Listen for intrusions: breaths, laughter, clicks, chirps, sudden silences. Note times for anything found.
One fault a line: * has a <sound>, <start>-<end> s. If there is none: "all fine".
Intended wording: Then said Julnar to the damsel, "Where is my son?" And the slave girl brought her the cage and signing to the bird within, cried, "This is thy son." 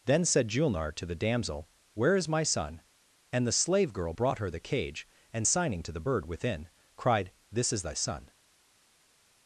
all fine